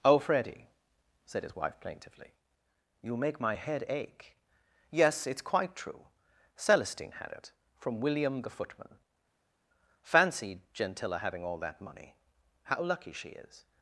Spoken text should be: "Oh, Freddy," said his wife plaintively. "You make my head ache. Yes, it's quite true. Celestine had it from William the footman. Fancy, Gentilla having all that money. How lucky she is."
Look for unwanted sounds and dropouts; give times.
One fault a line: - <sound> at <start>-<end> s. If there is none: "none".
none